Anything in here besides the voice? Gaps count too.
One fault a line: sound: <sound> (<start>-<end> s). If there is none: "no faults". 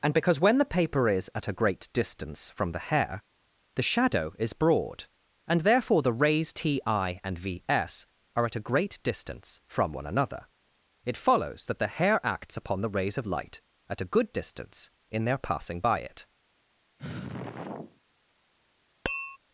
sound: sigh (17.0-18.0 s)
sound: tap (19.1-19.4 s)